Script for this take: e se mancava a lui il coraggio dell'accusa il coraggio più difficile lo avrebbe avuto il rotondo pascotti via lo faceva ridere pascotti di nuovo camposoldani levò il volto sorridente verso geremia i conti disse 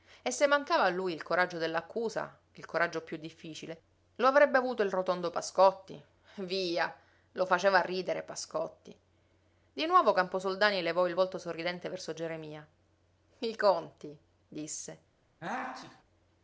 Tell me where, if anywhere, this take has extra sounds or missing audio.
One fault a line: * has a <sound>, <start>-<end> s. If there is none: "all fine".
* has a sneeze, 15.4-16.0 s